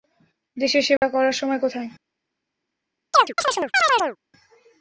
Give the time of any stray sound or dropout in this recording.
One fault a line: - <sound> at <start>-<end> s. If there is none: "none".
- dropout at 1.0-1.0 s
- chirp at 3.1-4.2 s